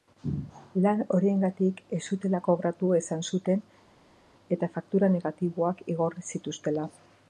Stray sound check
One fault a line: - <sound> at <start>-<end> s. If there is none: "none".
none